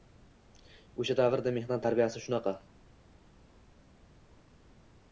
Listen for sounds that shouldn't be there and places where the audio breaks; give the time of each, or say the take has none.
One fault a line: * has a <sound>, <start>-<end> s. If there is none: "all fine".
all fine